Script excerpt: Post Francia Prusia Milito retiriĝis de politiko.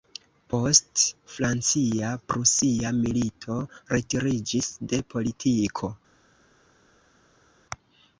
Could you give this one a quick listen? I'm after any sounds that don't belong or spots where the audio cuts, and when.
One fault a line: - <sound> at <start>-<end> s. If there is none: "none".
none